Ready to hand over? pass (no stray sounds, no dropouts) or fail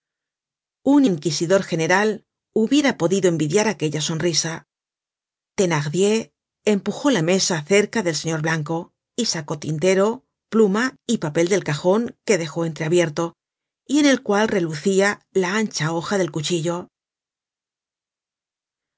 pass